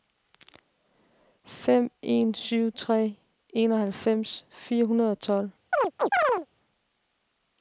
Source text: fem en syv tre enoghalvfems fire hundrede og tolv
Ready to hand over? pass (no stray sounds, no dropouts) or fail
fail